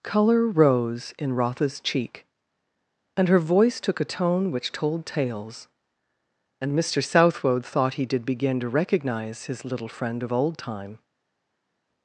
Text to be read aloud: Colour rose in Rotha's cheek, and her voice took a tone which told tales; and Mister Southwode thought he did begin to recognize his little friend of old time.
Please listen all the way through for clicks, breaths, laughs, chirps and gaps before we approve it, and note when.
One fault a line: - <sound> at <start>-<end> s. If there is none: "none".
none